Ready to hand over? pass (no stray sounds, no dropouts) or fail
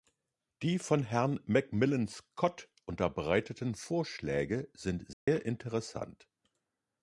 fail